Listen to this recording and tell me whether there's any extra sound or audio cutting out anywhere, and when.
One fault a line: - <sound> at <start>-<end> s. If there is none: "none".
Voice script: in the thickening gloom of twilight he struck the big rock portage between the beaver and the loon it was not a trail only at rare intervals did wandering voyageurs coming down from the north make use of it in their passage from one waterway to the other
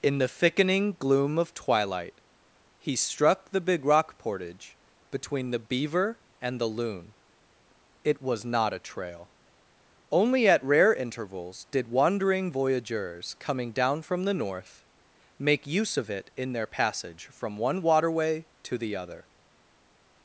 none